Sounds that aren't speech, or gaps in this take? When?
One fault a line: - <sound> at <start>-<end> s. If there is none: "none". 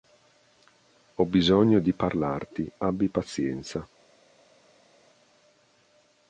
none